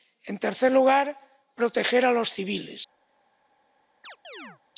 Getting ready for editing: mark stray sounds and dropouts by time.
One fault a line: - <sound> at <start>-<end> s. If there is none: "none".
- chirp at 4.0-4.6 s